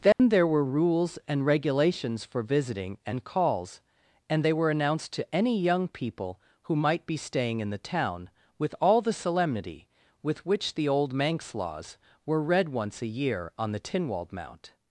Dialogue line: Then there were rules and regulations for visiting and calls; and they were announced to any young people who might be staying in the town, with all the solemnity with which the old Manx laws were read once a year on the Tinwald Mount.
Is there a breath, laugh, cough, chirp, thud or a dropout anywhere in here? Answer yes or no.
yes